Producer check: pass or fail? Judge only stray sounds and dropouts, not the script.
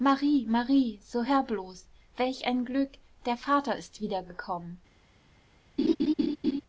fail